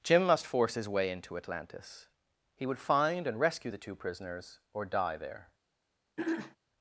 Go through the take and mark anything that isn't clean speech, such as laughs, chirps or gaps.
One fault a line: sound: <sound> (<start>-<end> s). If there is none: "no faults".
sound: throat clearing (6.2-6.6 s)